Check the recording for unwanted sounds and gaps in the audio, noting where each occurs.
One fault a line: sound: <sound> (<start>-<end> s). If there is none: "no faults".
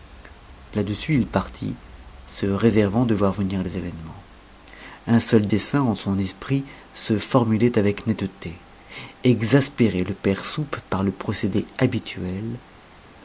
no faults